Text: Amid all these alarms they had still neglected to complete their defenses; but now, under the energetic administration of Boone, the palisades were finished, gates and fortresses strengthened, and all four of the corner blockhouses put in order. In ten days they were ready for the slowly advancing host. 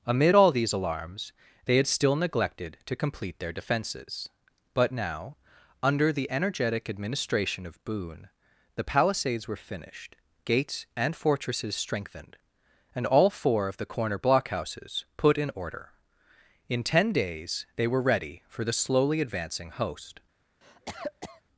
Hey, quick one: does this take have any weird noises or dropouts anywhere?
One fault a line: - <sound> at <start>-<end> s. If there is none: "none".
- cough at 20.6-21.4 s